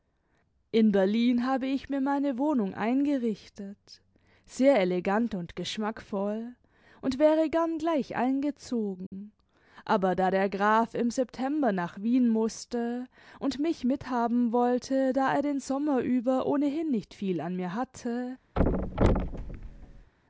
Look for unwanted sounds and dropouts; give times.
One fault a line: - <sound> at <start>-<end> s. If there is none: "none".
- dropout at 9.1-9.1 s
- thud at 18.6-20.1 s